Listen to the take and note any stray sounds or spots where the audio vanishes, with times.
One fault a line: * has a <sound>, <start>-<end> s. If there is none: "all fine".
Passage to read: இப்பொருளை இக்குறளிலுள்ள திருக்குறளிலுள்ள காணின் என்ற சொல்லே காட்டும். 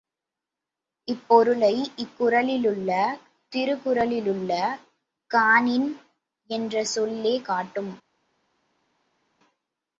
all fine